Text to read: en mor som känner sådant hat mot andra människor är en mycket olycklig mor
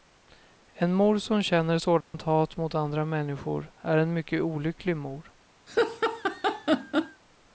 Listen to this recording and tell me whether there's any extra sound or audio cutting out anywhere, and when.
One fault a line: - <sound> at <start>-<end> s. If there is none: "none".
- dropout at 2.0-2.1 s
- laugh at 5.7-7.2 s